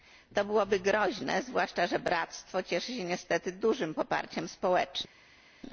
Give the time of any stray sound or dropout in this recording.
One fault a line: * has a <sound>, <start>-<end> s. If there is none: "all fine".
all fine